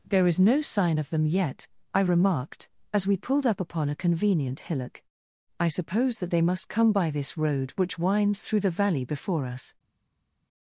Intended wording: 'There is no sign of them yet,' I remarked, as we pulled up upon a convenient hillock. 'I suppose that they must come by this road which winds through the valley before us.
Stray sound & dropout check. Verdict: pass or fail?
pass